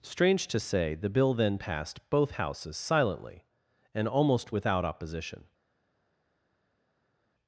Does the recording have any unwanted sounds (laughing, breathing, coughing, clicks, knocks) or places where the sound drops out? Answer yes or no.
no